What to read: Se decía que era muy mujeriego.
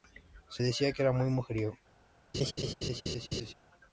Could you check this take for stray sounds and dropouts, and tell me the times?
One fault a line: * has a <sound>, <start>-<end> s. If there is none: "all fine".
* has a laugh, 2.3-3.5 s